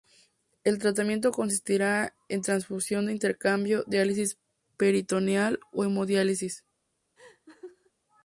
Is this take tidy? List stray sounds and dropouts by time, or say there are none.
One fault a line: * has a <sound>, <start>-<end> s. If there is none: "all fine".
* has a laugh, 7.2-7.9 s